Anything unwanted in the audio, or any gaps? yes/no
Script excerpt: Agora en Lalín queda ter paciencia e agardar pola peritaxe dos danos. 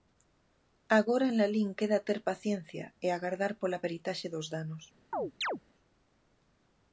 yes